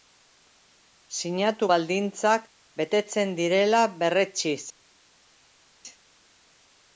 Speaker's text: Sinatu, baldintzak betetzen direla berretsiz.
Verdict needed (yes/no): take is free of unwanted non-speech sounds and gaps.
yes